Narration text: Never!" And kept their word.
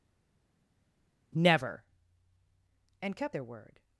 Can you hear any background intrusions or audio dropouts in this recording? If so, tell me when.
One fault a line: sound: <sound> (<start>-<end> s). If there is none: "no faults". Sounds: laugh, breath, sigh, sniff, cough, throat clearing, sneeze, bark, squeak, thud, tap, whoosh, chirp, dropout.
no faults